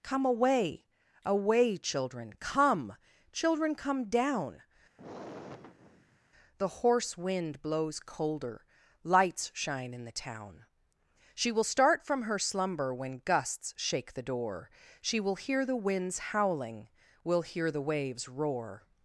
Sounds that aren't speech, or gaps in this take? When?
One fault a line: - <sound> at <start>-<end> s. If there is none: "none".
- sigh at 5.0-6.3 s